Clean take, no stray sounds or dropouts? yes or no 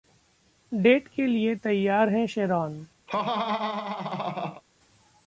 no